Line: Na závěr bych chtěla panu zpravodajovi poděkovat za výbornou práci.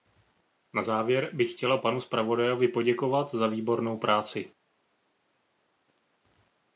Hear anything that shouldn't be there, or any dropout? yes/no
no